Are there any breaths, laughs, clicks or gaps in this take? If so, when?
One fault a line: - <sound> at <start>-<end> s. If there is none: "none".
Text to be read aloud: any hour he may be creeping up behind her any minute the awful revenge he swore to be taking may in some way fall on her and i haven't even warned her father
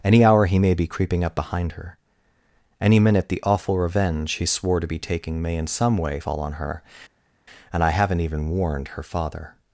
none